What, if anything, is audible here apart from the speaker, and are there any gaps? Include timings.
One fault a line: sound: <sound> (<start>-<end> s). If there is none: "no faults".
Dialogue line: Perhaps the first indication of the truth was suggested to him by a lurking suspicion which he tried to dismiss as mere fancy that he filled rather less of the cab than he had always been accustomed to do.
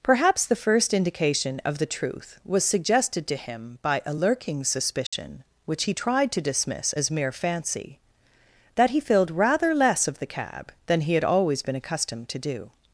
sound: dropout (5.1-5.1 s)